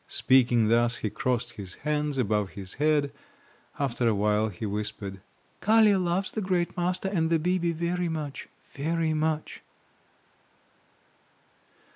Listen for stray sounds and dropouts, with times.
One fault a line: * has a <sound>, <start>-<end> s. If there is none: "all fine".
all fine